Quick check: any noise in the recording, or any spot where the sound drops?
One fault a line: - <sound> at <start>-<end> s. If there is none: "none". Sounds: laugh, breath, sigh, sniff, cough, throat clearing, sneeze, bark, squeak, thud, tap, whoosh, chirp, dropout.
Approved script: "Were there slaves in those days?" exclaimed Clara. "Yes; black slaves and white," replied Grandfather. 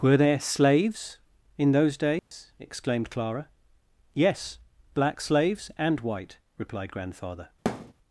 - dropout at 2.2-2.3 s
- thud at 7.7-7.9 s